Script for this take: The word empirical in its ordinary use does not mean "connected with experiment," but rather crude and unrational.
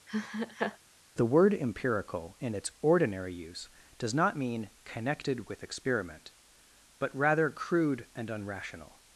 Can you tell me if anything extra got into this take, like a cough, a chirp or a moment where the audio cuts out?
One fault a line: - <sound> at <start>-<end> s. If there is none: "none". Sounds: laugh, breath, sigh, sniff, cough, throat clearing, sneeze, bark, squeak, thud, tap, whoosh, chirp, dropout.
- laugh at 0.1-0.8 s